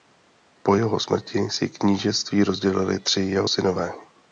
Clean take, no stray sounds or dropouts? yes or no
yes